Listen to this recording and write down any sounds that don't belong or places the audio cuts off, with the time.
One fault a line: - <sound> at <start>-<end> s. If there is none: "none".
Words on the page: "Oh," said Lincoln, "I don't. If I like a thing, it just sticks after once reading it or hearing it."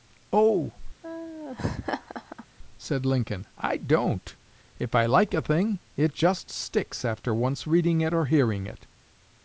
- laugh at 1.0-2.5 s